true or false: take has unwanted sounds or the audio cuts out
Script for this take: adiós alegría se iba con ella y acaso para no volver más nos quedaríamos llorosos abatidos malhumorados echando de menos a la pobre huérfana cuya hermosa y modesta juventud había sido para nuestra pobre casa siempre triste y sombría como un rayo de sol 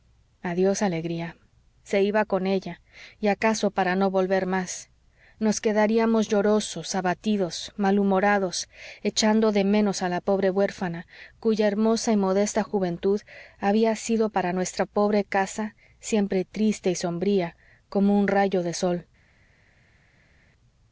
false